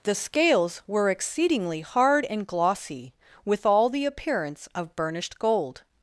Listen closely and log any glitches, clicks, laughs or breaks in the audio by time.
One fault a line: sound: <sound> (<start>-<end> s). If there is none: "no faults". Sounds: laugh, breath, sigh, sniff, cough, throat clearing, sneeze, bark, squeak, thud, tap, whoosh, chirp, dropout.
no faults